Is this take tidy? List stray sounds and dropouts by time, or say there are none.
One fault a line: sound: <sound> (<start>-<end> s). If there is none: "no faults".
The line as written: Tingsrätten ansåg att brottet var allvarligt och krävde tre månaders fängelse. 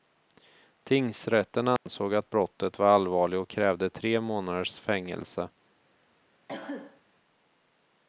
sound: dropout (1.8-1.9 s)
sound: cough (6.5-7.0 s)